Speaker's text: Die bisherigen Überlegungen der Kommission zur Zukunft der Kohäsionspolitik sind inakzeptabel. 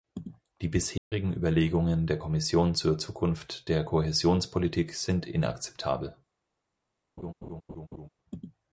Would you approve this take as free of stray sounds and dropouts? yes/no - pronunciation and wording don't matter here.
no